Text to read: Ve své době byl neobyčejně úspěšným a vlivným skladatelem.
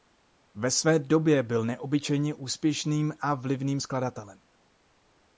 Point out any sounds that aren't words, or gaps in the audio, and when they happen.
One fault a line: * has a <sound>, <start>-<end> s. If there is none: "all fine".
all fine